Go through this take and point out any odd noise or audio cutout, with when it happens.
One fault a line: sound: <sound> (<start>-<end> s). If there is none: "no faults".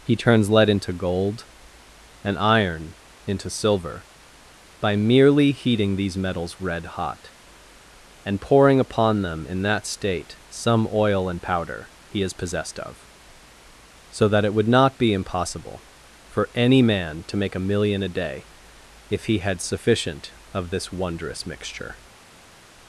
no faults